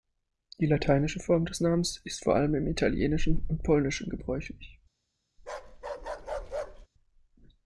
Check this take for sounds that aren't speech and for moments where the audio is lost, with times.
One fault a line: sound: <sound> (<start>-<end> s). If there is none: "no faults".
sound: bark (5.4-6.9 s)